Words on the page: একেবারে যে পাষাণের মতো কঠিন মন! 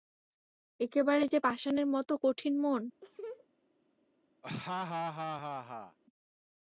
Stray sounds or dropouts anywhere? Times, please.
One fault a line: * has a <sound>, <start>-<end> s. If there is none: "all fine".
* has a laugh, 3.0-3.5 s
* has a laugh, 4.4-6.0 s